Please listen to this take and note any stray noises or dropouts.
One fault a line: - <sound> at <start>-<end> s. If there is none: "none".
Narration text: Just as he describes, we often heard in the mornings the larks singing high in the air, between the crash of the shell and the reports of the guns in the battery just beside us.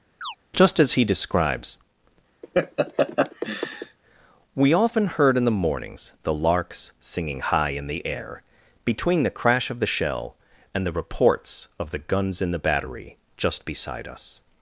- chirp at 0.2-0.4 s
- laugh at 2.4-4.0 s